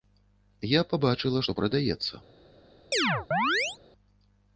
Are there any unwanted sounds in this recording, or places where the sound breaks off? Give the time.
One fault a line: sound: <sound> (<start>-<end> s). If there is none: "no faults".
sound: chirp (2.9-3.8 s)